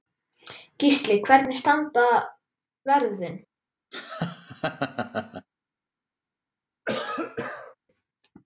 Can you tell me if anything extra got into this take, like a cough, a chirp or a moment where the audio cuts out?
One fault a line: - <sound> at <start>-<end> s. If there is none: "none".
- laugh at 3.9-5.5 s
- cough at 6.9-7.8 s